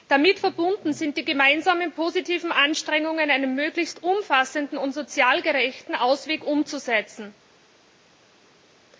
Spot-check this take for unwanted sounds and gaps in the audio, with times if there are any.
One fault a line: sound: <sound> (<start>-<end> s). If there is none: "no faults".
no faults